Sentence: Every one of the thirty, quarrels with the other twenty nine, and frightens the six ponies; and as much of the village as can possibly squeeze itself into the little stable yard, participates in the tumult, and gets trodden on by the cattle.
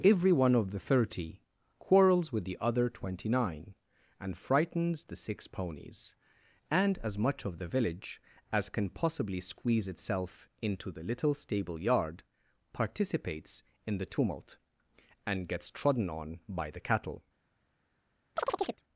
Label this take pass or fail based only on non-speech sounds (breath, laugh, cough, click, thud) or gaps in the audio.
fail